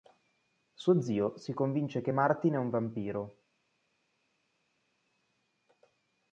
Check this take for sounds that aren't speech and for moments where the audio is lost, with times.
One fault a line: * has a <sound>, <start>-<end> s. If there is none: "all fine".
all fine